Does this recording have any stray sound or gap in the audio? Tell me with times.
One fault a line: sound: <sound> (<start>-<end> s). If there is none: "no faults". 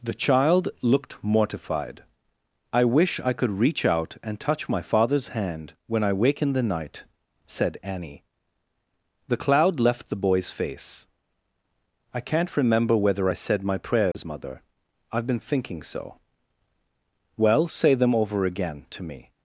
sound: dropout (14.1-14.1 s)